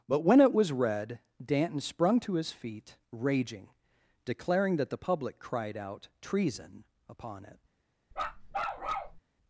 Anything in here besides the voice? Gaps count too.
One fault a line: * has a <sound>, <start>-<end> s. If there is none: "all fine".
* has a bark, 8.1-9.2 s